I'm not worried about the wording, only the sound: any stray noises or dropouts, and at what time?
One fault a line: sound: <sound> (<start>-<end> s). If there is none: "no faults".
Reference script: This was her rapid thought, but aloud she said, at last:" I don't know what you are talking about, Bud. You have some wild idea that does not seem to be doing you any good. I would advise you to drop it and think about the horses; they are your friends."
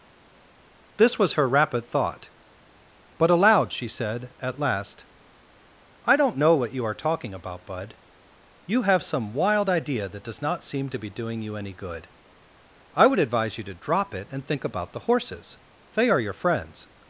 no faults